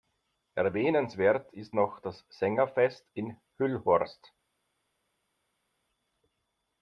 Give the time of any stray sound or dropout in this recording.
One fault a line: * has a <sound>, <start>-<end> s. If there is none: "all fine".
all fine